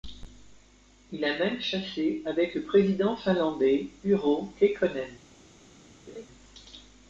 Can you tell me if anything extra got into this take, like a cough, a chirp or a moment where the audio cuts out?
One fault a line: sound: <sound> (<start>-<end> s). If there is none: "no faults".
sound: laugh (6.1-6.3 s)